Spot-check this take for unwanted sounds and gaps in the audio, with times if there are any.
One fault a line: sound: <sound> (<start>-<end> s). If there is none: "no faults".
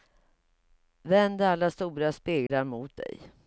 sound: dropout (2.5-2.5 s)